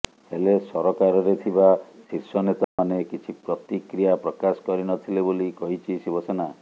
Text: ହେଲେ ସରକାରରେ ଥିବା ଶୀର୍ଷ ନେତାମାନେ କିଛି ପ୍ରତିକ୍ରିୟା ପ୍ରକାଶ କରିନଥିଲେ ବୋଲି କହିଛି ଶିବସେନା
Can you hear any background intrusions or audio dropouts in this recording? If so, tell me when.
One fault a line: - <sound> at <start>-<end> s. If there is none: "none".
- dropout at 2.6-2.8 s